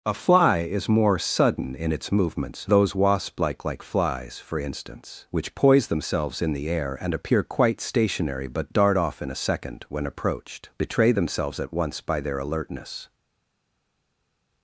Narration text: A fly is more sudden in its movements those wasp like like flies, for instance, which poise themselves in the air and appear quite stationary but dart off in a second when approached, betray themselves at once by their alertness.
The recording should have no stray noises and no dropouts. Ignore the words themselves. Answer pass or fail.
pass